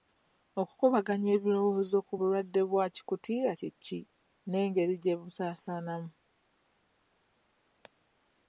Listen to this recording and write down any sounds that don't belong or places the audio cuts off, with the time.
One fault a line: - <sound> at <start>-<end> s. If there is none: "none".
none